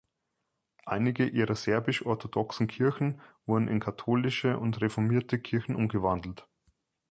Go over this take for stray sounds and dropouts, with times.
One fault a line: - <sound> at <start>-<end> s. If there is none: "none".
none